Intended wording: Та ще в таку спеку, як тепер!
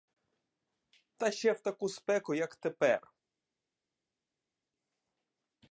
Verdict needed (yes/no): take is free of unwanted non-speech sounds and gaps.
yes